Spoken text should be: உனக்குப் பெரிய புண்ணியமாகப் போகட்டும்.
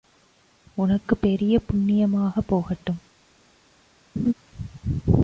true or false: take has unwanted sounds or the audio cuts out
true